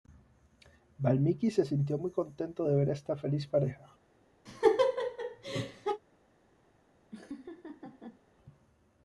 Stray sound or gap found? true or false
true